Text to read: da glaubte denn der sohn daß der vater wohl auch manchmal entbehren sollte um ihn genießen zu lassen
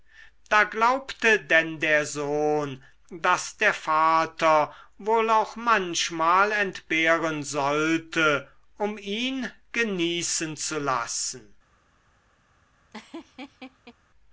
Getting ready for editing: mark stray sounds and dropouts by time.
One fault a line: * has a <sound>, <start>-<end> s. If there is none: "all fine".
* has a laugh, 12.9-13.9 s